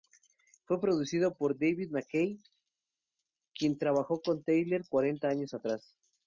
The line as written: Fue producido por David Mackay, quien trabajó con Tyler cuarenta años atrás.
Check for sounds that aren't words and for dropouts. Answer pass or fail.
pass